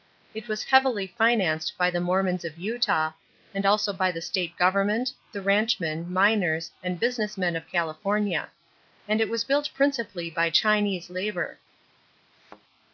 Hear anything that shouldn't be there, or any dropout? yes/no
yes